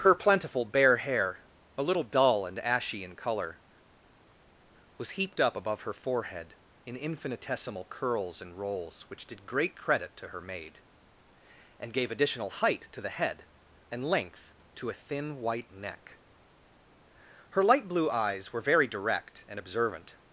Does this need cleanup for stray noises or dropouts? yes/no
no